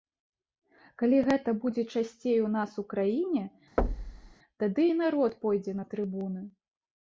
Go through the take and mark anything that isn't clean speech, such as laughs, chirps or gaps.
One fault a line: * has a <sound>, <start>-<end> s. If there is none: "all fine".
* has a thud, 3.8-4.3 s